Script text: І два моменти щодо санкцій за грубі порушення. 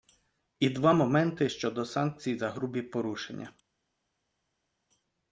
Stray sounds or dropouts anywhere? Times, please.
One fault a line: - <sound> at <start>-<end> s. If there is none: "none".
none